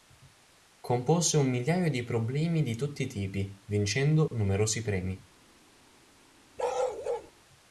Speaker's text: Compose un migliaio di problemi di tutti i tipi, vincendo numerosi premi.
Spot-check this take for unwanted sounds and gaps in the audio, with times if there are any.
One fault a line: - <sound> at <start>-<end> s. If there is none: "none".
- dropout at 4.3-4.3 s
- bark at 6.6-7.3 s